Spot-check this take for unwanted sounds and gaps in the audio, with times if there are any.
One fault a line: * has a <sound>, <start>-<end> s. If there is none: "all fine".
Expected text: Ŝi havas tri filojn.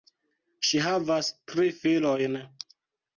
all fine